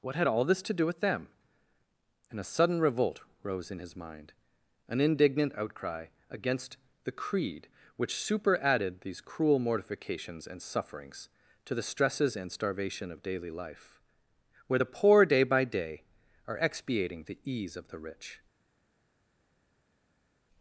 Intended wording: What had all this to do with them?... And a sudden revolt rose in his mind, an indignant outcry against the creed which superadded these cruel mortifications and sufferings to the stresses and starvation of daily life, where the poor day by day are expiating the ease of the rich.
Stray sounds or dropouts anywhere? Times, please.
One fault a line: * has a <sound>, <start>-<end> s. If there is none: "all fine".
all fine